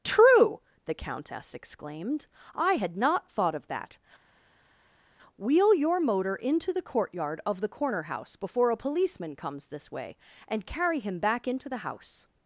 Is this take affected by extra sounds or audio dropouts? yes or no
no